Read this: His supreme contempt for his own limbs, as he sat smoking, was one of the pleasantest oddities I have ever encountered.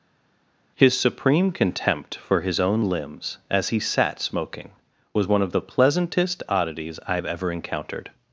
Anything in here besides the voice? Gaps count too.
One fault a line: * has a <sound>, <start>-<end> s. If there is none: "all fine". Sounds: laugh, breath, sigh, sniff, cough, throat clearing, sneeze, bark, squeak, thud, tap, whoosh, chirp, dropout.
all fine